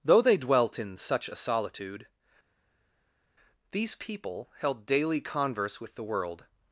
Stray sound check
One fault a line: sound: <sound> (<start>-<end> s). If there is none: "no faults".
no faults